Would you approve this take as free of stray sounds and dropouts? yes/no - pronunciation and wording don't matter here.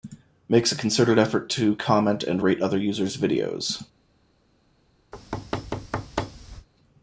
no